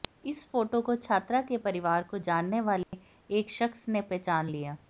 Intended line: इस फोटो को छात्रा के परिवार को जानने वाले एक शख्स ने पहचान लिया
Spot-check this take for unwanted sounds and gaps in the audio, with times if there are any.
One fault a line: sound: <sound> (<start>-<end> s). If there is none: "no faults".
sound: dropout (2.8-2.9 s)